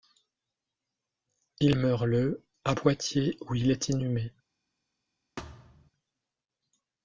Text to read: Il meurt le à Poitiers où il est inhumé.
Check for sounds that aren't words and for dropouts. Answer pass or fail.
fail